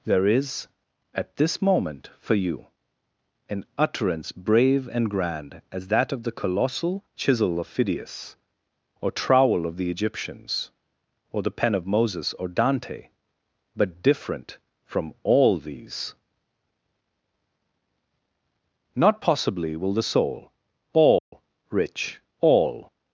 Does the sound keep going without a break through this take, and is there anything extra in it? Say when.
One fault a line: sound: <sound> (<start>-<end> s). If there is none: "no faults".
sound: dropout (21.2-21.3 s)